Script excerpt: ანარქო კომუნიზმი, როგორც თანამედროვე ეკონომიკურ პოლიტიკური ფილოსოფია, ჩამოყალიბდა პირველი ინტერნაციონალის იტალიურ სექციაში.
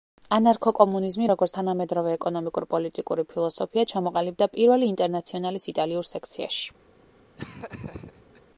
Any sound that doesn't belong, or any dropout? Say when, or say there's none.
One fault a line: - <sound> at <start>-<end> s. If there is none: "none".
- laugh at 7.4-8.4 s